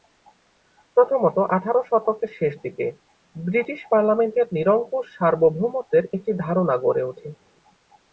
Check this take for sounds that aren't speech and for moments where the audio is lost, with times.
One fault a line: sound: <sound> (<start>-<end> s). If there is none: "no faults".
no faults